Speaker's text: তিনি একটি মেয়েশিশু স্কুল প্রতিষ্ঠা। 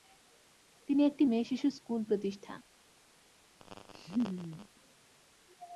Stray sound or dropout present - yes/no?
yes